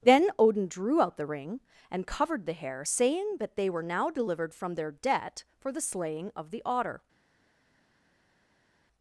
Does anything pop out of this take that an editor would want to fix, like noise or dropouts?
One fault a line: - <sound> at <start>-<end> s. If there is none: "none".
none